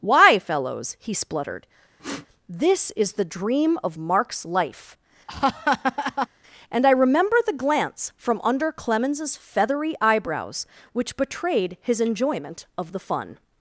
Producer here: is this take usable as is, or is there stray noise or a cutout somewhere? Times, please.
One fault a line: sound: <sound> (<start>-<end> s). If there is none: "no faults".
sound: sniff (2.0-2.3 s)
sound: laugh (5.3-6.3 s)